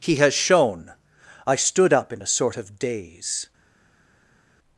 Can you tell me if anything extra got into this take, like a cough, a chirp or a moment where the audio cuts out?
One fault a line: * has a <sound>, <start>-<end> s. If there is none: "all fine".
all fine